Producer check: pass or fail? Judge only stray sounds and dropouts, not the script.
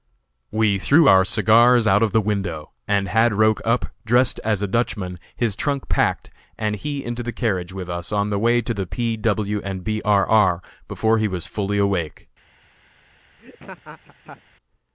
fail